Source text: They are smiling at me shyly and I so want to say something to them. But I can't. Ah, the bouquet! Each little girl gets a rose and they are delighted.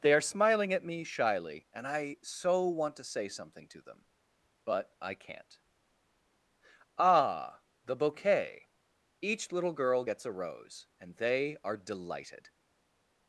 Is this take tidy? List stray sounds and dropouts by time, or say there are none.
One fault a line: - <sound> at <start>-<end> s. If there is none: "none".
none